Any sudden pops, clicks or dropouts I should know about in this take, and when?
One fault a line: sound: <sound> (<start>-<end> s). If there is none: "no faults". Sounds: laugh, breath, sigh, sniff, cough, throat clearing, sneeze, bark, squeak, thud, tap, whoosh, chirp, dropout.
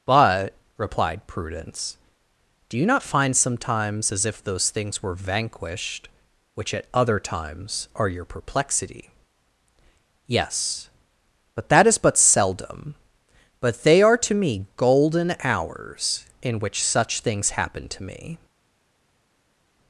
no faults